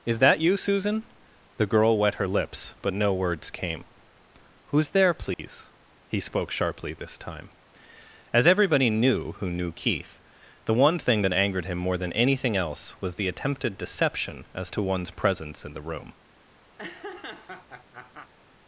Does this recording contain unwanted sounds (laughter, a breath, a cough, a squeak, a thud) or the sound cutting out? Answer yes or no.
yes